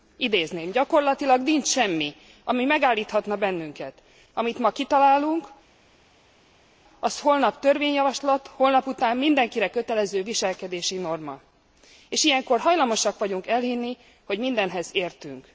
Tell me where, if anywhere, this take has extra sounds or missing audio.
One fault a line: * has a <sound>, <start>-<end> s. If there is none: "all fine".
all fine